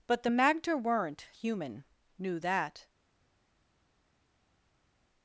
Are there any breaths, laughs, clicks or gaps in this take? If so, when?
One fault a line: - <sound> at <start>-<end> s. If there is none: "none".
none